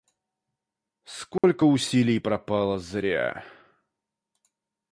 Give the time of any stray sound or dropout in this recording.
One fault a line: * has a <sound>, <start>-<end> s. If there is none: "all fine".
* has a dropout, 1.4-1.4 s